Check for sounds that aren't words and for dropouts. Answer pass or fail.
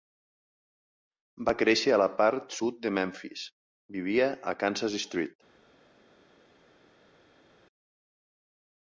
pass